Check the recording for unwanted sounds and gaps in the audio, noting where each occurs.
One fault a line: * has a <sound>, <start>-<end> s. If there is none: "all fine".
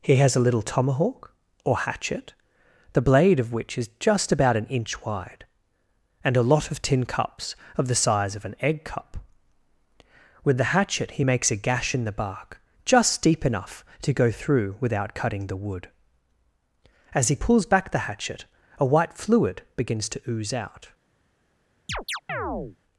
* has a chirp, 21.9-22.8 s